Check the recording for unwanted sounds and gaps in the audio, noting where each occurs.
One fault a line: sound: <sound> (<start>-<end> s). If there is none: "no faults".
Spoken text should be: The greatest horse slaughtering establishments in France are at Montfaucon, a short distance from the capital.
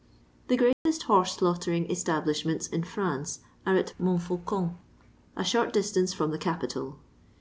sound: dropout (0.7-0.9 s)